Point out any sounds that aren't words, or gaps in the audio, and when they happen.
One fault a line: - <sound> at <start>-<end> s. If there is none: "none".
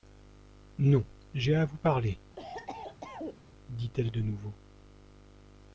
- cough at 2.4-3.4 s